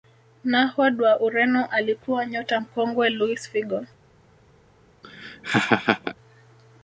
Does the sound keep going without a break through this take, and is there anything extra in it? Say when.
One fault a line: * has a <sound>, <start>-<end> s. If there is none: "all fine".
* has a laugh, 5.0-6.2 s